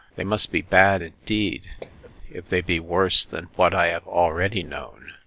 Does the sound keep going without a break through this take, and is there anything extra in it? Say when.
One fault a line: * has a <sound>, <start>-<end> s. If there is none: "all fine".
* has a cough, 1.8-2.1 s